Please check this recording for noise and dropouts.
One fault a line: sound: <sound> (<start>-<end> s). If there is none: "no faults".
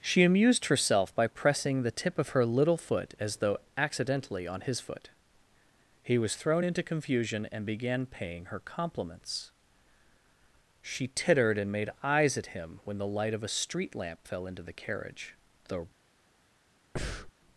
sound: breath (17.0-17.3 s)